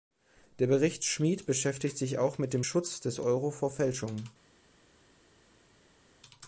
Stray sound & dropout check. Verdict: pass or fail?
pass